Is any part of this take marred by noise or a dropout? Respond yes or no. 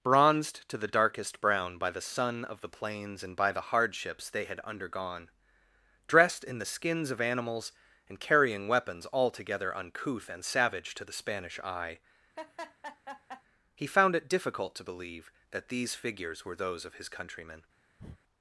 yes